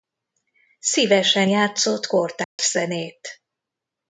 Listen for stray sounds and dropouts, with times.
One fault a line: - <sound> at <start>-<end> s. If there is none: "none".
- dropout at 2.4-2.6 s